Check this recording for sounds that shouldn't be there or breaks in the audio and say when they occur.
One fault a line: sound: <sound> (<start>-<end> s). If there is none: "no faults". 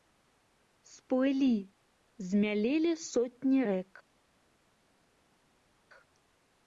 no faults